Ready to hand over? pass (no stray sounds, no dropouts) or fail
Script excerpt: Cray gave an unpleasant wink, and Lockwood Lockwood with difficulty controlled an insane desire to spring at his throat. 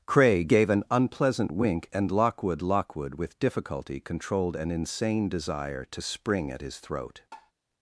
fail